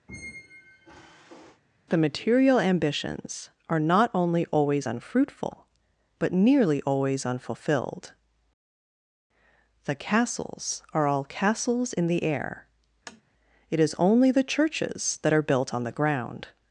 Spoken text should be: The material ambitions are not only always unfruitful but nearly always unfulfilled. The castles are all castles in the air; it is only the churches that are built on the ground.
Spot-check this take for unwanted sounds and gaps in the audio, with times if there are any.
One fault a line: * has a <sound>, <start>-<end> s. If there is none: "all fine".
* has a squeak, 0.1-1.6 s
* has a tap, 13.1-13.2 s